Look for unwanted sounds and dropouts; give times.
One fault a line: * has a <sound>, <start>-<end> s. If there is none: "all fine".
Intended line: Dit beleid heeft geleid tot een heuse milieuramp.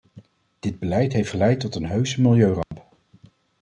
* has a dropout, 2.6-2.7 s